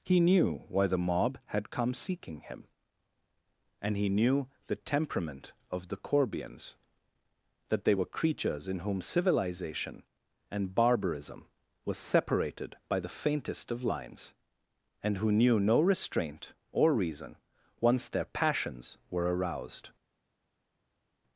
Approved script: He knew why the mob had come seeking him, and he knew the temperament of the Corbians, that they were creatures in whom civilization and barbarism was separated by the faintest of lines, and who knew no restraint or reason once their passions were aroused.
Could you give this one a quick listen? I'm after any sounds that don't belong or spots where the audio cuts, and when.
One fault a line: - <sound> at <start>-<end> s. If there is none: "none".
none